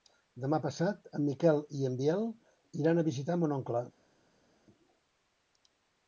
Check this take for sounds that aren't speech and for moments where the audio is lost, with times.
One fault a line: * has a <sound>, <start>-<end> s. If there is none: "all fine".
all fine